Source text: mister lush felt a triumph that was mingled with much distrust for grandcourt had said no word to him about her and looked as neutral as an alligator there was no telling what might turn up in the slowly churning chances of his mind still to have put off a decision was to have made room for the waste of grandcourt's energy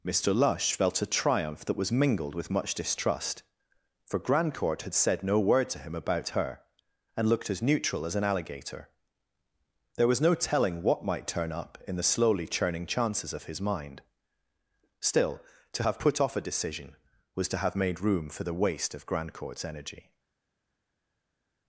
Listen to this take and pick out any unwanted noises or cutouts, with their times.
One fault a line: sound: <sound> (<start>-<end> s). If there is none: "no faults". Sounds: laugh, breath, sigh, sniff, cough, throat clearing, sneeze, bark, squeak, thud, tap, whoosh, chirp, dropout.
no faults